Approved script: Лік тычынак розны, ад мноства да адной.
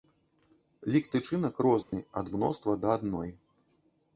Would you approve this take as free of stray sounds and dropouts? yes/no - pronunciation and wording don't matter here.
no